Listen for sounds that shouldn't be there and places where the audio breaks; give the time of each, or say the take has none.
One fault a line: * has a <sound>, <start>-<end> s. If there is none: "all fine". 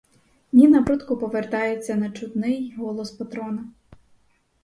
all fine